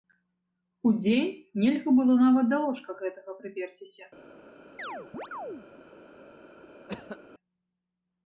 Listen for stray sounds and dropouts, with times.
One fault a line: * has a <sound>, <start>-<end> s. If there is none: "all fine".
* has a chirp, 4.8-5.7 s
* has a cough, 6.9-7.2 s